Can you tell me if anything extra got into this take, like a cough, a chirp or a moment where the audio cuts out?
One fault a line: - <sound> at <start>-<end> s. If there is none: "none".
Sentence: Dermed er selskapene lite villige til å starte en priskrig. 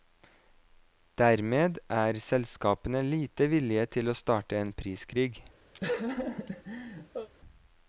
- laugh at 5.7-7.3 s